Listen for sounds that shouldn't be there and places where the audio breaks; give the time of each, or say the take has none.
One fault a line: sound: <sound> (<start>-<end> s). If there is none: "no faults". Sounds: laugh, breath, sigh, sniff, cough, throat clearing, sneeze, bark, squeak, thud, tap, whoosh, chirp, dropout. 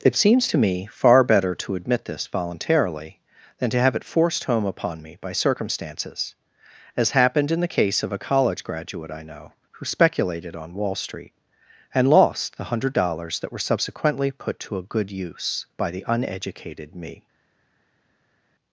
no faults